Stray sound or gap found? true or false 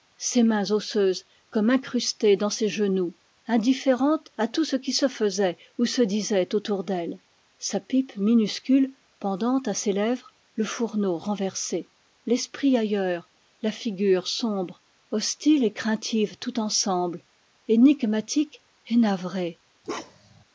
true